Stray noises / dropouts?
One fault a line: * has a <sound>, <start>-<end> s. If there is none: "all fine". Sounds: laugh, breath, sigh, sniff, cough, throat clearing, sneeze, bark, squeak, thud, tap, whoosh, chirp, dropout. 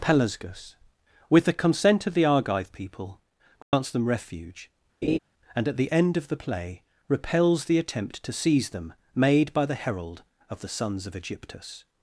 * has a dropout, 3.6-3.7 s
* has a laugh, 5.0-5.2 s